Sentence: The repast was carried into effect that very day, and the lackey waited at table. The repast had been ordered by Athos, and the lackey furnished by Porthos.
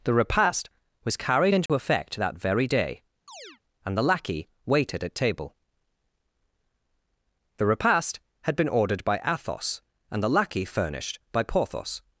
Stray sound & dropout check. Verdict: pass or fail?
fail